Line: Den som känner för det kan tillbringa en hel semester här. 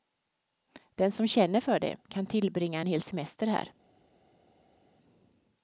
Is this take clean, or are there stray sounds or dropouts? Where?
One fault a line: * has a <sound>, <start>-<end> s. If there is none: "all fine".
all fine